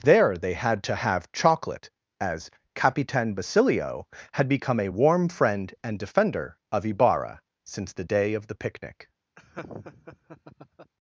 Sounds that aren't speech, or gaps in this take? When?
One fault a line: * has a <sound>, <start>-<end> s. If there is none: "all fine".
* has a laugh, 9.4-10.9 s